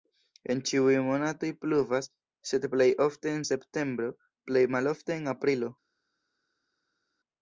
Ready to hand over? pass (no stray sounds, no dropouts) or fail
pass